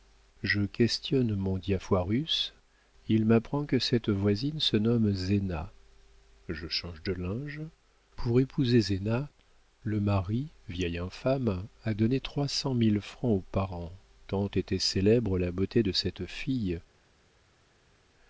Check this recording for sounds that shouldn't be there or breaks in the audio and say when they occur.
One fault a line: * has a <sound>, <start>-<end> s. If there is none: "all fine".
all fine